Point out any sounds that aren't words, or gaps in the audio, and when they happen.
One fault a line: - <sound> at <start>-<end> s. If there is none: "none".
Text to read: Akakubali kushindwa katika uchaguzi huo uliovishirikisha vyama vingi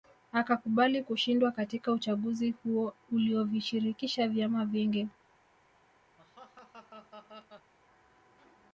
- laugh at 6.2-7.7 s